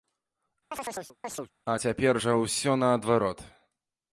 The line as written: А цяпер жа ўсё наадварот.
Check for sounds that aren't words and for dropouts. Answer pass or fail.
fail